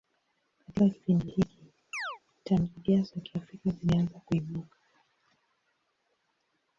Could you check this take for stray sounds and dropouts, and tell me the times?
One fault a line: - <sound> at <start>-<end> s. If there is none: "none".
- chirp at 1.9-2.2 s